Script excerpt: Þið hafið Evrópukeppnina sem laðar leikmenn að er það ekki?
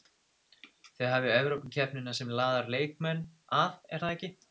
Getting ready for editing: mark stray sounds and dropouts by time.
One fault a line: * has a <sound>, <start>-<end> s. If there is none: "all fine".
all fine